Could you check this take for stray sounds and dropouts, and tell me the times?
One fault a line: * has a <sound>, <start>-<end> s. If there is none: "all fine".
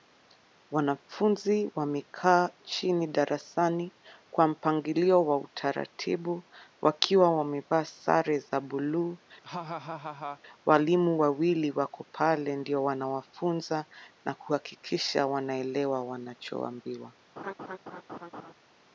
* has a laugh, 9.4-10.4 s
* has a laugh, 17.4-18.5 s